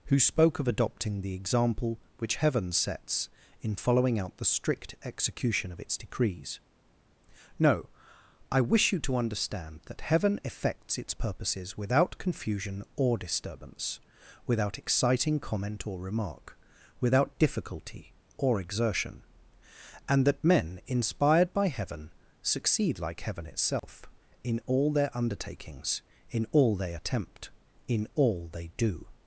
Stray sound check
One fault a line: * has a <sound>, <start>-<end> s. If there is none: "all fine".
* has a dropout, 23.8-23.8 s